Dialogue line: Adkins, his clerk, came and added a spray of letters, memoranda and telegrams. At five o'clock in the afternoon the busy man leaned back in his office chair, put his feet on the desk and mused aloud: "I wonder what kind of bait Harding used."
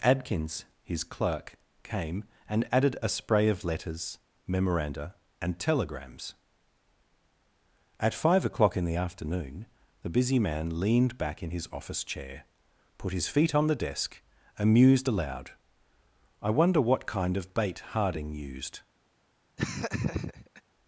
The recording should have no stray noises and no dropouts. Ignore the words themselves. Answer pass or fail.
fail